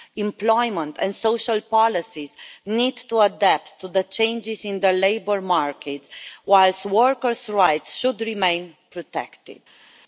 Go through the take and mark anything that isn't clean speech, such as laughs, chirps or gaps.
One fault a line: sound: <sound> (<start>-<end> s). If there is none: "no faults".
no faults